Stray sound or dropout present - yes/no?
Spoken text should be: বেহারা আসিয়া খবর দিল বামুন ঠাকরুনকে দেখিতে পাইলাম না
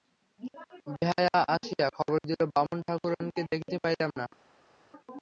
no